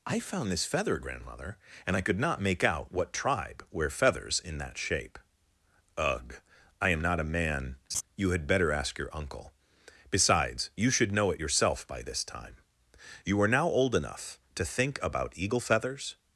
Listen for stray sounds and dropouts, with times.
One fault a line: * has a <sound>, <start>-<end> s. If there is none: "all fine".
* has a laugh, 7.9-8.0 s